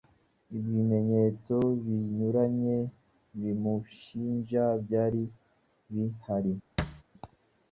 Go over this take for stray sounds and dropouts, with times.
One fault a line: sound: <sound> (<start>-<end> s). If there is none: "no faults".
sound: thud (6.8-7.0 s)